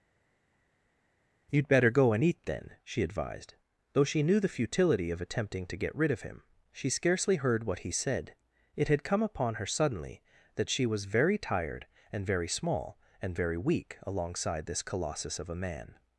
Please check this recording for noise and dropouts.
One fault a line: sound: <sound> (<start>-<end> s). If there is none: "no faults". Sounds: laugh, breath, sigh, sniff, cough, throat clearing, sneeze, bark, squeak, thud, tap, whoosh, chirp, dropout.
no faults